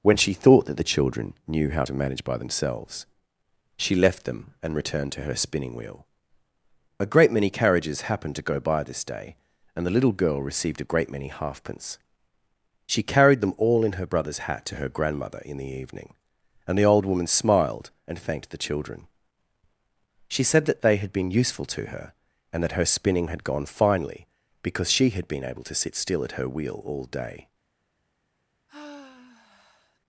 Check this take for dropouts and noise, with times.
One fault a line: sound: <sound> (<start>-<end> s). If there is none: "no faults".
sound: sigh (28.7-30.0 s)